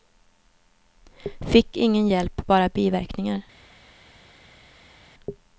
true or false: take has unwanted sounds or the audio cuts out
false